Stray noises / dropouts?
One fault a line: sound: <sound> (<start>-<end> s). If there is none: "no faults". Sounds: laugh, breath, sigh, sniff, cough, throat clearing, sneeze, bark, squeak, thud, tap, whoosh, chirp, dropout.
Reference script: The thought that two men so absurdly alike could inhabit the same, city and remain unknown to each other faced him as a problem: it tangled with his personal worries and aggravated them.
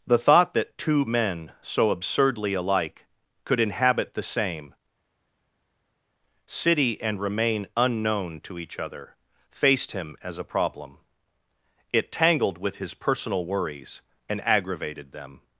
no faults